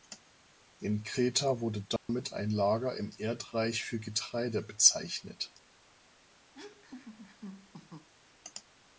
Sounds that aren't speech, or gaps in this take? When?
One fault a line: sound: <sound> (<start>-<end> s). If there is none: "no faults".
sound: dropout (2.0-2.1 s)
sound: laugh (6.5-8.1 s)